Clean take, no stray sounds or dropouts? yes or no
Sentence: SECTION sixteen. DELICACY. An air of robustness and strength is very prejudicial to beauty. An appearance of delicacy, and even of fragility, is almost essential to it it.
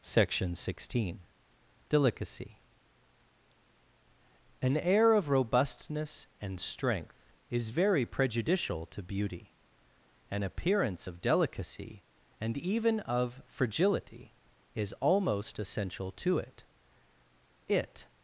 yes